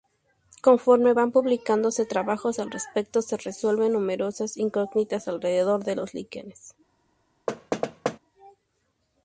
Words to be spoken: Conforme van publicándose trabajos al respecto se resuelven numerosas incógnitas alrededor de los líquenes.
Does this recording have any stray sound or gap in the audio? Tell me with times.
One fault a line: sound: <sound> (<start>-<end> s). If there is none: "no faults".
sound: thud (7.5-8.2 s)